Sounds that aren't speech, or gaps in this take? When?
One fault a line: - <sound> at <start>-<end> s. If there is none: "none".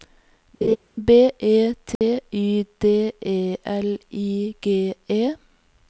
- laugh at 0.6-0.8 s
- dropout at 2.0-2.0 s